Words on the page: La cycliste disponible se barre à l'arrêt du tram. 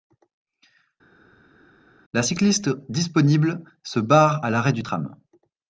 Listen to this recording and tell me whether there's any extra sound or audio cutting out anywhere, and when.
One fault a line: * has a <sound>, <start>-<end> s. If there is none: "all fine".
all fine